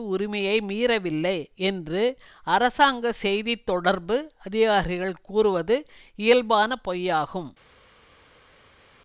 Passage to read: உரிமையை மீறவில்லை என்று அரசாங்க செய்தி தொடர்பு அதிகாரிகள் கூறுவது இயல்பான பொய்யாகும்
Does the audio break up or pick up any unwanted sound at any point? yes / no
no